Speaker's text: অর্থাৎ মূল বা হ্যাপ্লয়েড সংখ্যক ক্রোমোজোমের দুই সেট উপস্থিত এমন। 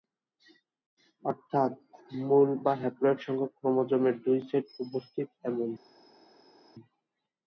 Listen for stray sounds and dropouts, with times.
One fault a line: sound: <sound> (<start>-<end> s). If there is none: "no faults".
no faults